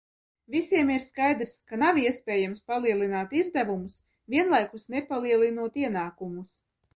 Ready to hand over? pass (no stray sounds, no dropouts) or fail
pass